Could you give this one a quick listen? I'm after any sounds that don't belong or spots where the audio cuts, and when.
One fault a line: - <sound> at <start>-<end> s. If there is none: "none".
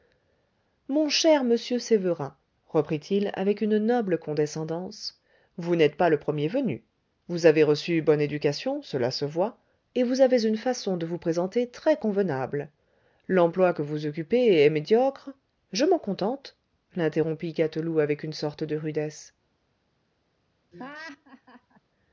- laugh at 20.7-21.8 s